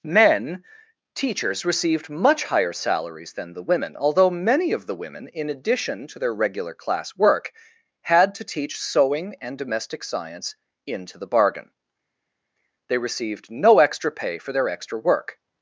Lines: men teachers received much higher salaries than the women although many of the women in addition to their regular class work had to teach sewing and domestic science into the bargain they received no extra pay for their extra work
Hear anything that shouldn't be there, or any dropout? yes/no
no